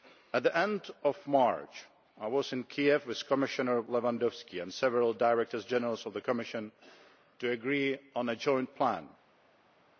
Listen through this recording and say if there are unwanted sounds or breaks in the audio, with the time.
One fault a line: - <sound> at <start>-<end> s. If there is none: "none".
none